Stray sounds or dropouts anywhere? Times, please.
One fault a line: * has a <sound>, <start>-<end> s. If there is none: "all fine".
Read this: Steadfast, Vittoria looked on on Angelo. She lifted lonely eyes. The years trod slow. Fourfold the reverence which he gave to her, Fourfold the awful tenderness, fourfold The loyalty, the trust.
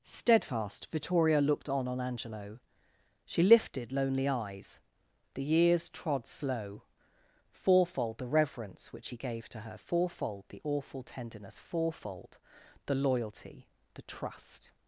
all fine